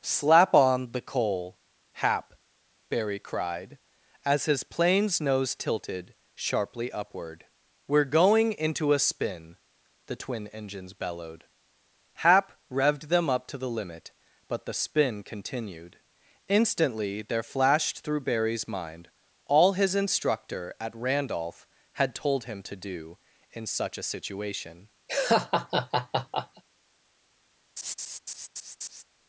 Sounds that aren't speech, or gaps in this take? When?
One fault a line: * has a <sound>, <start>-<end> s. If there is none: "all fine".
* has a laugh, 25.1-26.6 s
* has a laugh, 27.8-29.0 s